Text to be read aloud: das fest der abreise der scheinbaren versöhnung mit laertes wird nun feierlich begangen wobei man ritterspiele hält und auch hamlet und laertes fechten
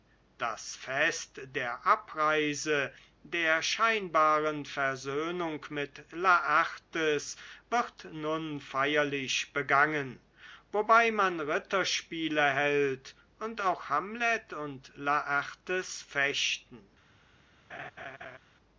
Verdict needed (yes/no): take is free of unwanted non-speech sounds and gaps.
no